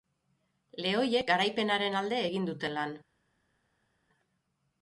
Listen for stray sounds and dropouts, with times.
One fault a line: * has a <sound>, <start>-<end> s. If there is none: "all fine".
all fine